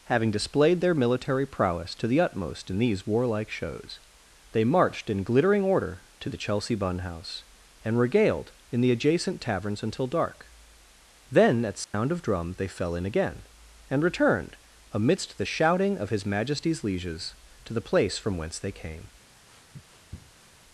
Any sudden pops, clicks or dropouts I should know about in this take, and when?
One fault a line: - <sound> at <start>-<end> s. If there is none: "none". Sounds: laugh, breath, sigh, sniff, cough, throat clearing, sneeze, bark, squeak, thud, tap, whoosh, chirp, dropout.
- dropout at 11.8-11.9 s
- sniff at 19.5-20.5 s